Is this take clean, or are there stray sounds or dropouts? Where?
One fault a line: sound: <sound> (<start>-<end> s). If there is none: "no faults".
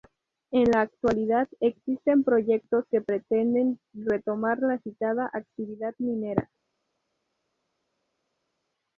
no faults